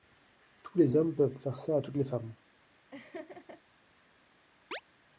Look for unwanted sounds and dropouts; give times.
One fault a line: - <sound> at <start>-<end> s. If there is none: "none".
- laugh at 2.9-3.6 s
- chirp at 4.7-4.8 s